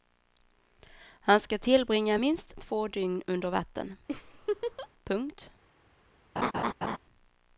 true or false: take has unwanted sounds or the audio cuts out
true